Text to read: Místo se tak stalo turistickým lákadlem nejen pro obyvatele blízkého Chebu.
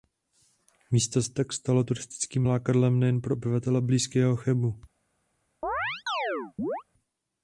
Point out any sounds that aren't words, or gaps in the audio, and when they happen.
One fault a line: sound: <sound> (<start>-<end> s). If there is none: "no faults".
sound: chirp (5.6-6.8 s)